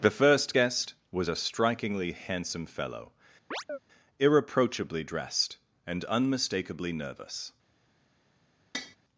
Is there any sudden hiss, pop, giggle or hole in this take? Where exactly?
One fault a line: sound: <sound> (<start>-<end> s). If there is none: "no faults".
sound: chirp (3.5-3.8 s)
sound: tap (8.7-9.0 s)